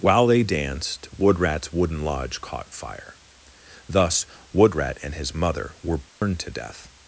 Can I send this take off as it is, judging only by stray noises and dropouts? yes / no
no